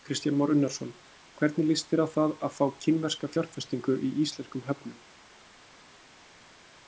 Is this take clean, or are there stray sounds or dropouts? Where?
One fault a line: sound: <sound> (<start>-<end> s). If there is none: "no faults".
no faults